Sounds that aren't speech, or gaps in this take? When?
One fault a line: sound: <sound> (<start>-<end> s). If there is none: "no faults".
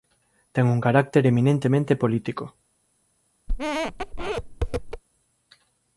sound: squeak (3.5-5.0 s)